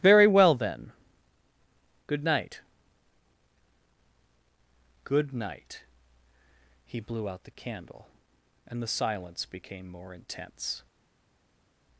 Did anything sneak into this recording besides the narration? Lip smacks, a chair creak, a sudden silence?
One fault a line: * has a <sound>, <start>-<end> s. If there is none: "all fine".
all fine